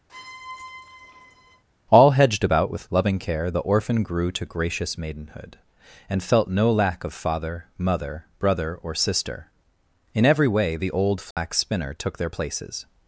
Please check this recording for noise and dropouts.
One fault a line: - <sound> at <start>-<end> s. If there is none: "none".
- squeak at 0.1-1.6 s
- dropout at 11.3-11.4 s